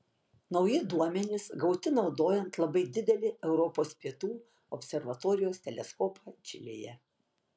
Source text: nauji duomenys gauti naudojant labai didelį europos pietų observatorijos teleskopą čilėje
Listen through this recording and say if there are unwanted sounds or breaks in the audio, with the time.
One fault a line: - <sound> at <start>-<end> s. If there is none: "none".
none